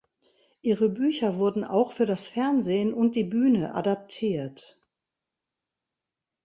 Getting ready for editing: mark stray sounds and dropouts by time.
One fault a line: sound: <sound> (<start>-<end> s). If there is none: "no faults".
no faults